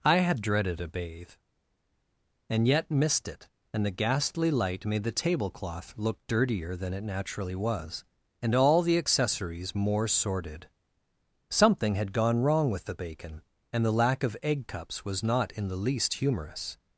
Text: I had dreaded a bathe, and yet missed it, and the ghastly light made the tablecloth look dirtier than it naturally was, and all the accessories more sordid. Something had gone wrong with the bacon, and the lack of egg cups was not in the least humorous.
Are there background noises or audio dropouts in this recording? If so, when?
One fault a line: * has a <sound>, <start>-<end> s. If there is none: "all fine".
all fine